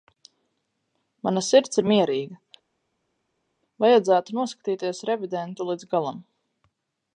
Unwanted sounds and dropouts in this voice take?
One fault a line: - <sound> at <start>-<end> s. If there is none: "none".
none